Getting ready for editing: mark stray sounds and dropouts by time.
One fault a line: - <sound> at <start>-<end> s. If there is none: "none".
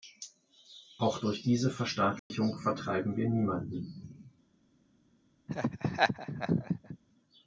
- dropout at 2.2-2.3 s
- laugh at 5.5-7.0 s